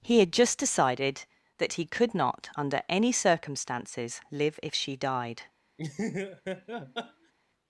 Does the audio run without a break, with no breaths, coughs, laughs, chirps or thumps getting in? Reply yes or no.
no